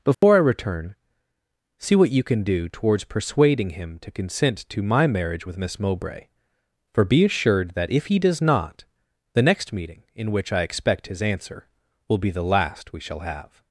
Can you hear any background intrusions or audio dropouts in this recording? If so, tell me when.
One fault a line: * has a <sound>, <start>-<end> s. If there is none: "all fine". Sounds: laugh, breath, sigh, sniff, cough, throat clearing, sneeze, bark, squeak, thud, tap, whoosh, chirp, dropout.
* has a dropout, 0.1-0.2 s